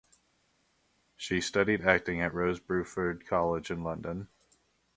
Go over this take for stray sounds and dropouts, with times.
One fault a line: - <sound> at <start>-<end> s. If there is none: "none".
none